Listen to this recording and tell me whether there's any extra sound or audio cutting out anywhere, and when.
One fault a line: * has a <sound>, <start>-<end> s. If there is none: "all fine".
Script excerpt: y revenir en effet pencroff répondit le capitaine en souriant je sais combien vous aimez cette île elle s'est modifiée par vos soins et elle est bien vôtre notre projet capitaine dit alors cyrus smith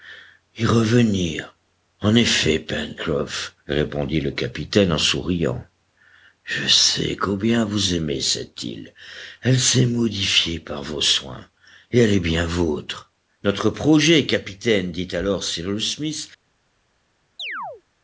* has a chirp, 17.4-17.8 s